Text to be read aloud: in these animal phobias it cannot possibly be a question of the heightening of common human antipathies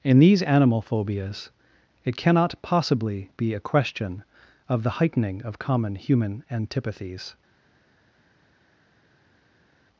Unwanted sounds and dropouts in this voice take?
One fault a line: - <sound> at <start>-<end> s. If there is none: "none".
none